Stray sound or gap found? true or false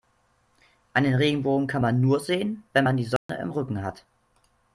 true